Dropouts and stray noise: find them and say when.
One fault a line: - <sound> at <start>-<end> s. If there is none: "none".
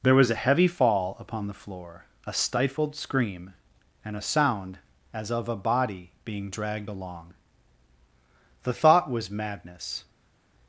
none